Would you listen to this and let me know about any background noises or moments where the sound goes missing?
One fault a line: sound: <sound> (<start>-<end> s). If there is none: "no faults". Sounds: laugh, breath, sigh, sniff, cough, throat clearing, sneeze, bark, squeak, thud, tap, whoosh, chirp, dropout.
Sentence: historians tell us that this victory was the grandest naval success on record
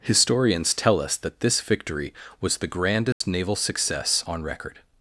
sound: dropout (3.1-3.2 s)